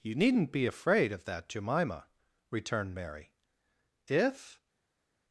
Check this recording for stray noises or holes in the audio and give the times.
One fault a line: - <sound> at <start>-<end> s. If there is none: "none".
none